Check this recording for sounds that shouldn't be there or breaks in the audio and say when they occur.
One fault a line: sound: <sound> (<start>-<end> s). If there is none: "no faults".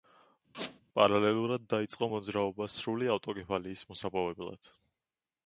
sound: squeak (0.5-0.8 s)